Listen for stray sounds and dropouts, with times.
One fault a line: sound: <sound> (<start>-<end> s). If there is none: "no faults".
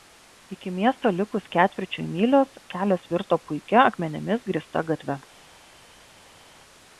no faults